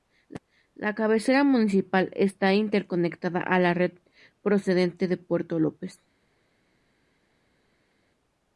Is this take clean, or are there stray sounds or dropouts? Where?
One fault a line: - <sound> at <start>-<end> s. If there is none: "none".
none